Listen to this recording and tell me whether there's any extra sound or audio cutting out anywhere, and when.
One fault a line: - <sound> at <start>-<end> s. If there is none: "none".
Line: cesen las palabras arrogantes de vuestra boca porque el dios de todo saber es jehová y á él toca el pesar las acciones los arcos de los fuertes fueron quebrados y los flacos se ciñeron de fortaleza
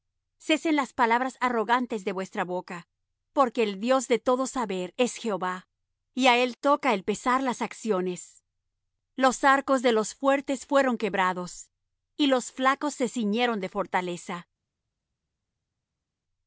none